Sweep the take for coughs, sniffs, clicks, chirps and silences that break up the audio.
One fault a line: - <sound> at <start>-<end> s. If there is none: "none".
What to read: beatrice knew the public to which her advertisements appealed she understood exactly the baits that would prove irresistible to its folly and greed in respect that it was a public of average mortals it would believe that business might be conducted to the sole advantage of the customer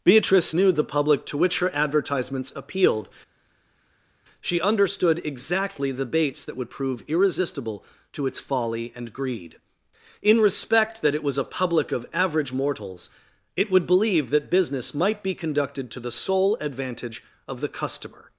none